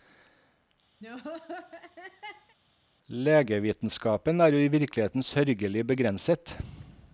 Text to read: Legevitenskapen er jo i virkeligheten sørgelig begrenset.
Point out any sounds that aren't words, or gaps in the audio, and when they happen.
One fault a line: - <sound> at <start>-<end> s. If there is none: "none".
- laugh at 1.0-2.6 s